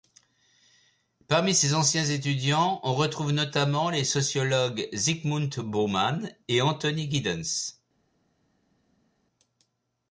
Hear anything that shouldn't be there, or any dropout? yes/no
no